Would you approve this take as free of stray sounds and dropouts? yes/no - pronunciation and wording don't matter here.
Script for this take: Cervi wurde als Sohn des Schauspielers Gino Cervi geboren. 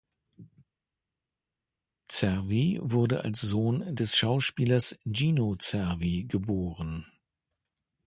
yes